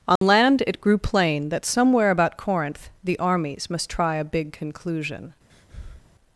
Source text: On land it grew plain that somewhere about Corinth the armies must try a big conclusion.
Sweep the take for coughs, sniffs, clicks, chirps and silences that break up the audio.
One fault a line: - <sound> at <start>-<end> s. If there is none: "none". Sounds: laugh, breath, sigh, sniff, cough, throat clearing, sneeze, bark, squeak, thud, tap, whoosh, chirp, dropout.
- dropout at 0.2-0.2 s
- breath at 5.5-6.1 s